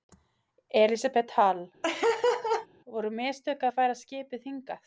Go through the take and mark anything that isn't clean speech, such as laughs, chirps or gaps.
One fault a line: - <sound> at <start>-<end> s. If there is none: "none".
- laugh at 1.8-2.7 s